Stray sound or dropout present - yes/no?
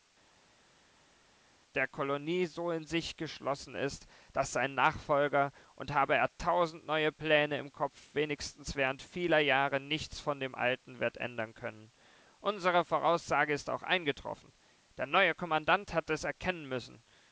no